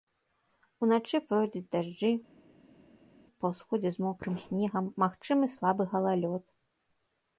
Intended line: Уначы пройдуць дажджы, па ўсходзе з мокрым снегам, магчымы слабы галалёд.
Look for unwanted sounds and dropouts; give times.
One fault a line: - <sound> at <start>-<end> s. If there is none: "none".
none